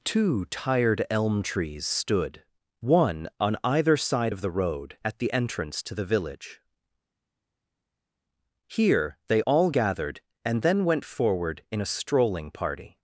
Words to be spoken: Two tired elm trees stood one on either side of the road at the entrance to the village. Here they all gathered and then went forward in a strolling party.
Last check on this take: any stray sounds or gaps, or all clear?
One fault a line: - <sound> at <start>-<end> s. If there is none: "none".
none